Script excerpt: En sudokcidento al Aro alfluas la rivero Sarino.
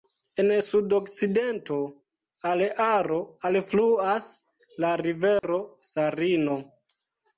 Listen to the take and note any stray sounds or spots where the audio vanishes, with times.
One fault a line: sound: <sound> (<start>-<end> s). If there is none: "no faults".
sound: dropout (5.4-5.4 s)